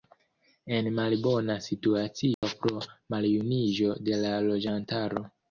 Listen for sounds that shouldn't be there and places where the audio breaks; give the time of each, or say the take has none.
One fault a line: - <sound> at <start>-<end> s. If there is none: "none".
- dropout at 2.3-2.4 s